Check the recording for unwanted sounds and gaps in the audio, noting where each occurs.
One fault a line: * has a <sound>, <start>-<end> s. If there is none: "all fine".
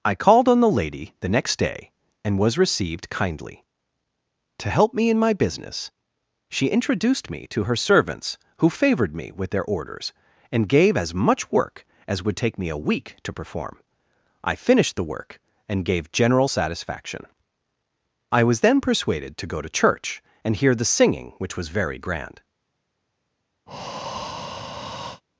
* has a breath, 23.7-25.2 s